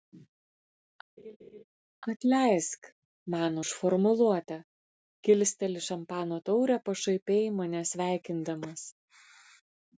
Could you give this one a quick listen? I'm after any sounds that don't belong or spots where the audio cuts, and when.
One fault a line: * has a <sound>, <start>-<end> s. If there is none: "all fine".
* has a laugh, 1.2-1.6 s